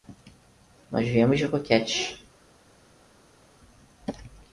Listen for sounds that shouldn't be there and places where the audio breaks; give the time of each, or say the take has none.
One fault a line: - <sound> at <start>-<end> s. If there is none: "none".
none